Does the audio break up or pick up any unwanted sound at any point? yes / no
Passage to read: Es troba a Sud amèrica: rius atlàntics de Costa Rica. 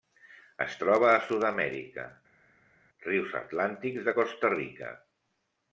no